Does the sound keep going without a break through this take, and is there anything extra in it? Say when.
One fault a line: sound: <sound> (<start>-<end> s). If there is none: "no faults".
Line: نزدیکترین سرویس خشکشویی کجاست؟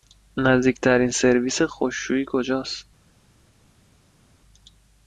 no faults